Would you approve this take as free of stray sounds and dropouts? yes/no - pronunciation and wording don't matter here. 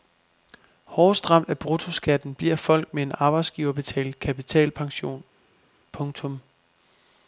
yes